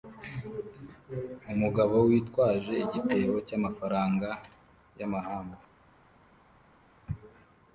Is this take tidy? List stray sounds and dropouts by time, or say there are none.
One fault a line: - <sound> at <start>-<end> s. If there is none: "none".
none